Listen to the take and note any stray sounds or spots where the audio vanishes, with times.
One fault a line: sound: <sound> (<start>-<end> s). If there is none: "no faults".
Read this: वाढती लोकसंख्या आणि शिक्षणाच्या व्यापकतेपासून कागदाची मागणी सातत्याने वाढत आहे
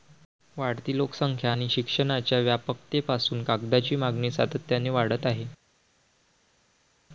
no faults